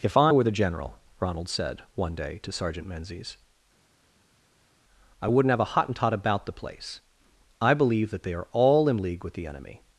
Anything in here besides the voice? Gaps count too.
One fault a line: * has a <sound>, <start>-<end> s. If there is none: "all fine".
all fine